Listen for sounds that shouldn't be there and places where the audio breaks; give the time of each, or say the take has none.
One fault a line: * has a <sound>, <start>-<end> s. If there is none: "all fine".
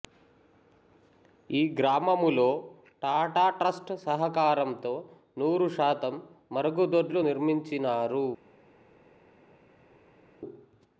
all fine